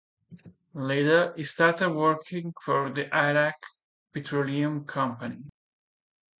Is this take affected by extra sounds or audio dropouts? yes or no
no